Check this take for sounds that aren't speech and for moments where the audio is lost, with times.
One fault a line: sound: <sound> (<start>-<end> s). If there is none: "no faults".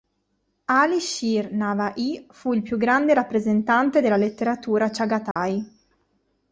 sound: dropout (5.3-5.4 s)